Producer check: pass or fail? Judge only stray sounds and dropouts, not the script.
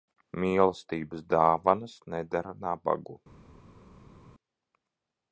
pass